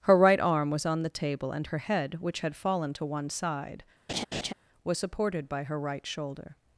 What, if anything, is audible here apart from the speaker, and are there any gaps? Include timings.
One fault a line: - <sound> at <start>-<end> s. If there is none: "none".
- laugh at 4.1-4.5 s